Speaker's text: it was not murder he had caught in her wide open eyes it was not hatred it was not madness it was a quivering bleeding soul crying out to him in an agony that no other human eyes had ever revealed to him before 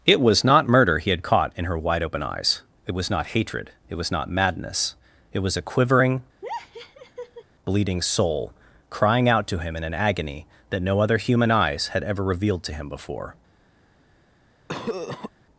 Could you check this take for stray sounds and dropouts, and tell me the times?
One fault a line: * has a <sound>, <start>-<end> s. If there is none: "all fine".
* has a laugh, 6.4-7.4 s
* has a cough, 14.7-15.3 s